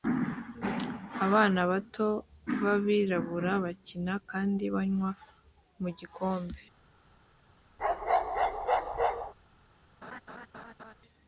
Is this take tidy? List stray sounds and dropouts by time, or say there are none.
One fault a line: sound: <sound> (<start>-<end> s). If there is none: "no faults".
sound: bark (7.8-9.3 s)
sound: laugh (10.0-10.9 s)